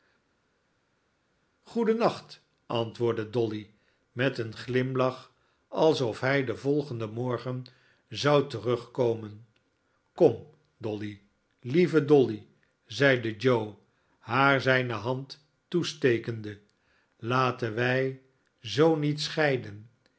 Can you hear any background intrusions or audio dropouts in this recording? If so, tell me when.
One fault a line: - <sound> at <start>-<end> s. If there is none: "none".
none